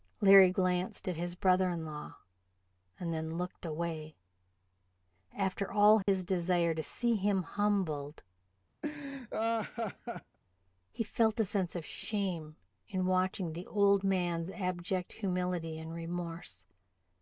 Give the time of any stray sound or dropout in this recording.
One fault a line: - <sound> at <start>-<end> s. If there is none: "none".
- dropout at 6.0-6.1 s
- laugh at 8.8-10.4 s